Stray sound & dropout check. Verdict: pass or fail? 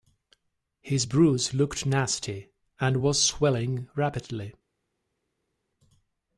pass